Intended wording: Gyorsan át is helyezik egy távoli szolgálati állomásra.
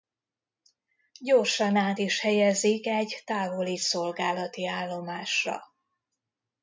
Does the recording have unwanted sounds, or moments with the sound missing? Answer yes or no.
no